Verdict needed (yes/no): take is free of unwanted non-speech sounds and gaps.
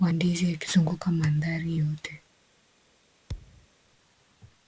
no